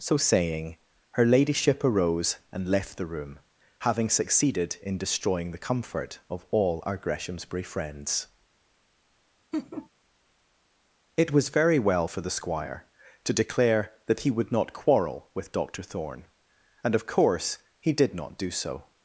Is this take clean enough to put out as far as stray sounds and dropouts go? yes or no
no